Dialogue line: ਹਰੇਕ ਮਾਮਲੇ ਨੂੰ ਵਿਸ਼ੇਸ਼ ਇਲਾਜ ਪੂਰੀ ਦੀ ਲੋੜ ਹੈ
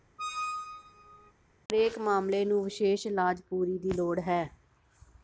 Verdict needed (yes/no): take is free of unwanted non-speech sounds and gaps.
no